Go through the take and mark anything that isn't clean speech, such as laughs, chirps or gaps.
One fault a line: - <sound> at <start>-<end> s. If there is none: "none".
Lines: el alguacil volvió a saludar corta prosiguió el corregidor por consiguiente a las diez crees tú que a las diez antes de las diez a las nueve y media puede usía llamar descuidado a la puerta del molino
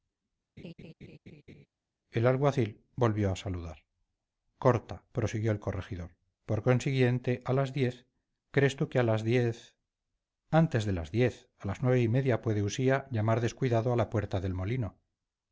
- laugh at 0.6-1.7 s